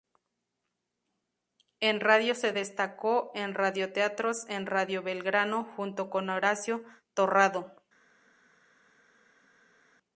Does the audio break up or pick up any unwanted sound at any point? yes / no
no